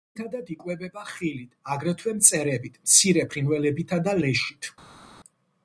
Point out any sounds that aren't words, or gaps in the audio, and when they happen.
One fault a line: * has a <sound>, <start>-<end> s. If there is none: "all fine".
all fine